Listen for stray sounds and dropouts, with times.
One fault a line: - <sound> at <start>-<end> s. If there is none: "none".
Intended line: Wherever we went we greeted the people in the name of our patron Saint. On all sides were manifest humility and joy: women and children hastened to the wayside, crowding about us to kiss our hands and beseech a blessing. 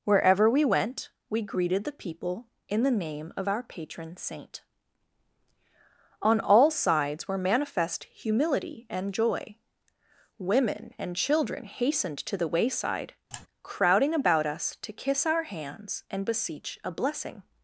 - sigh at 13.3-13.5 s